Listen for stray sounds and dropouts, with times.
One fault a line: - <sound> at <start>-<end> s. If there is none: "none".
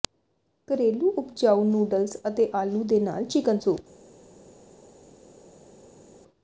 none